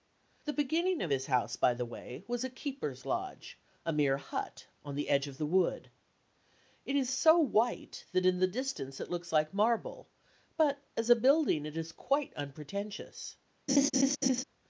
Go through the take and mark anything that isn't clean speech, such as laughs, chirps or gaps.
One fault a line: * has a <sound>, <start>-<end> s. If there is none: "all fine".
* has a laugh, 13.7-14.4 s